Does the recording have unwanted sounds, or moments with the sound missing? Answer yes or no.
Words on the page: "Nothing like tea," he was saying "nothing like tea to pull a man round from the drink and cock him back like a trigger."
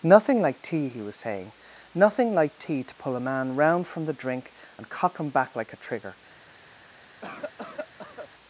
yes